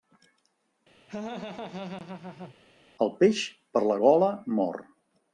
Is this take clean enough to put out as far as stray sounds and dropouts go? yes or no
no